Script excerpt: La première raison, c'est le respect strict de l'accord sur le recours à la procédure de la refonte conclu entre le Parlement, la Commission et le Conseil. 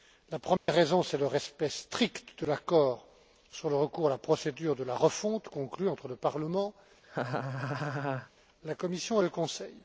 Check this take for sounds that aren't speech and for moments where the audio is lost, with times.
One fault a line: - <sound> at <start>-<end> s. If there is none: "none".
- dropout at 0.6-0.7 s
- laugh at 7.0-8.3 s